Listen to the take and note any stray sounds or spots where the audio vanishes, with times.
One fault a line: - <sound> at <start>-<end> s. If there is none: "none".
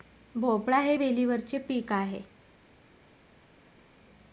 none